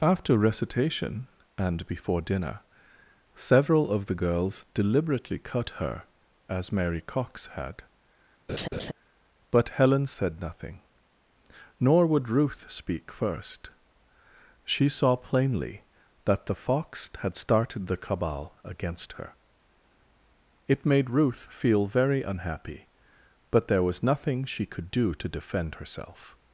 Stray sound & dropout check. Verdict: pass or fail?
fail